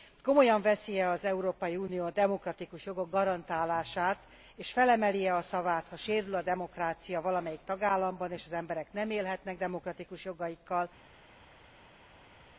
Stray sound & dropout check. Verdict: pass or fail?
pass